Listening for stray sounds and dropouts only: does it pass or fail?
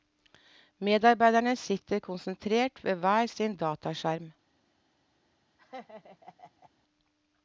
fail